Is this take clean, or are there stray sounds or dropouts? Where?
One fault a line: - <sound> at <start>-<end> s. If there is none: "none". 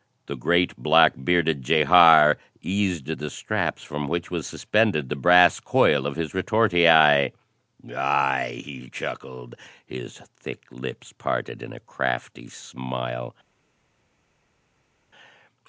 none